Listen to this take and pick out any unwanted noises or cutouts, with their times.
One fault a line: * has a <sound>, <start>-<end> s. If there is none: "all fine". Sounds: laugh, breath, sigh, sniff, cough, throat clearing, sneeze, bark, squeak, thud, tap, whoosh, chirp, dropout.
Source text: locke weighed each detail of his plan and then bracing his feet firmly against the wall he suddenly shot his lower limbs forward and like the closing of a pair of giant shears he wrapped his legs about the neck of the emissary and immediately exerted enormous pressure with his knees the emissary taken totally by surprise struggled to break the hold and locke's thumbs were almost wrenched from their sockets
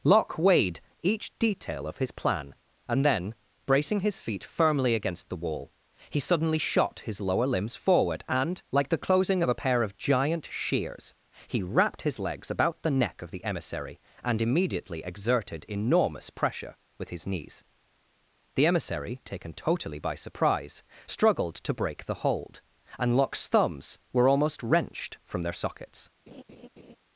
* has a laugh, 26.3-27.0 s